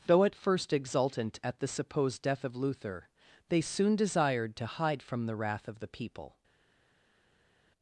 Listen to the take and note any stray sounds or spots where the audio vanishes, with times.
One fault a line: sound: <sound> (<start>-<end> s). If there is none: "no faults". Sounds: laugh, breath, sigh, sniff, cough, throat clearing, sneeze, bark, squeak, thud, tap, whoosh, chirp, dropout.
no faults